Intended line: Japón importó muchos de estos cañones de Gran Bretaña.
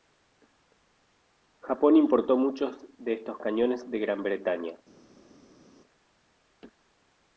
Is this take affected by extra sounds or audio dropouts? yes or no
no